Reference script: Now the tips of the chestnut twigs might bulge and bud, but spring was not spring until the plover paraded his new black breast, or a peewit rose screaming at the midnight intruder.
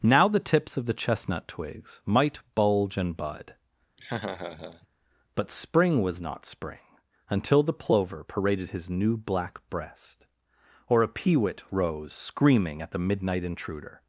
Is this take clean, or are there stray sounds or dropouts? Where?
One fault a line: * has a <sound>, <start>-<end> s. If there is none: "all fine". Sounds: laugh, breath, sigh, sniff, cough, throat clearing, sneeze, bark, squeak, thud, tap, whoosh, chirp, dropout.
* has a laugh, 4.0-4.9 s